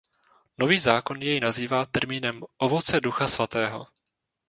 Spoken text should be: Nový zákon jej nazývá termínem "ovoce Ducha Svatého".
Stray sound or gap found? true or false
false